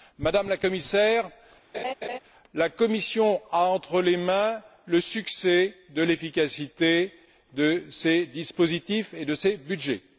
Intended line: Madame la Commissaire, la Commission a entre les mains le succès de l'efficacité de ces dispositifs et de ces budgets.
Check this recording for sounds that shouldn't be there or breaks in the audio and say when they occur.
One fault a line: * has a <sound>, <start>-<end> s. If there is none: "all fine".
* has a laugh, 1.7-2.2 s